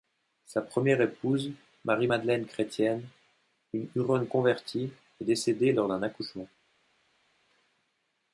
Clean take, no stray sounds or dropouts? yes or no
yes